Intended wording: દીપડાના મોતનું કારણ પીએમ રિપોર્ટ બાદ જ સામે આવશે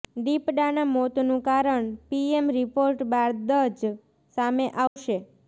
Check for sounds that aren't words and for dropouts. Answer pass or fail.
fail